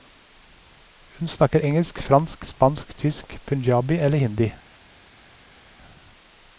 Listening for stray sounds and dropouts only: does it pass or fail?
pass